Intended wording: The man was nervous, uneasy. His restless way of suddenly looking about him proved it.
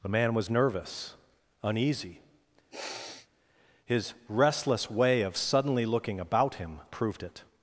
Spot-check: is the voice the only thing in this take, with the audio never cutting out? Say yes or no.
no